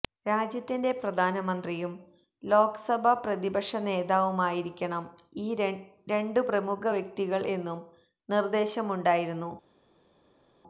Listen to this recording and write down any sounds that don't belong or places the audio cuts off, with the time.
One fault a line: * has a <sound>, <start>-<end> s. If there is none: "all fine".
all fine